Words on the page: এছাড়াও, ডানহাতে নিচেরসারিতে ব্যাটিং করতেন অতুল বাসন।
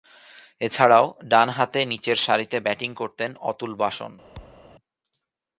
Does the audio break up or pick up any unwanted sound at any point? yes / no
yes